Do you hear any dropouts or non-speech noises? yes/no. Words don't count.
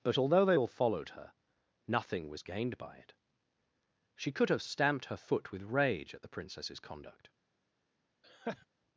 yes